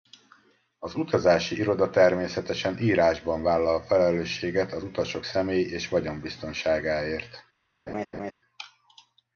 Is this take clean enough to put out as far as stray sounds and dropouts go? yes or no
no